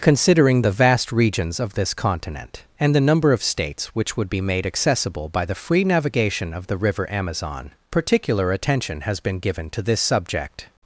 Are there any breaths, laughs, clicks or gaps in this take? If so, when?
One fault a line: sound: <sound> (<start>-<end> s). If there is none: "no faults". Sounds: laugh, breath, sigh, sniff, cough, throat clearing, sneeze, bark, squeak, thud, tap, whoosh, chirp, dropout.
no faults